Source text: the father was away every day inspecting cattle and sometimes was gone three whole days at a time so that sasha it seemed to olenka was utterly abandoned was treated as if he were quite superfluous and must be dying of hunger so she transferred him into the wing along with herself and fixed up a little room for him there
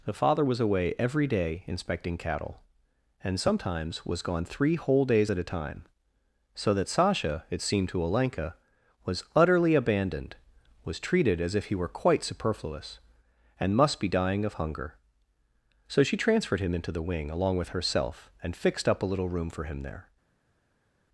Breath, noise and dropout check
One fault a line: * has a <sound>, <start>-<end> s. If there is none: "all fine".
all fine